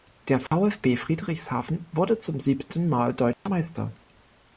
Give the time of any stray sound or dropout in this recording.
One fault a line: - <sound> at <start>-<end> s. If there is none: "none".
- dropout at 0.5-0.5 s
- dropout at 3.3-3.5 s